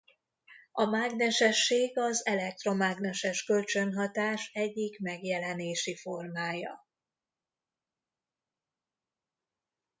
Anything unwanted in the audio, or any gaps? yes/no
no